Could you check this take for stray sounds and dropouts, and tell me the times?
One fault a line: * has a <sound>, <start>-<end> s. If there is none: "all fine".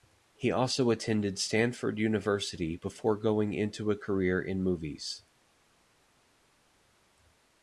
all fine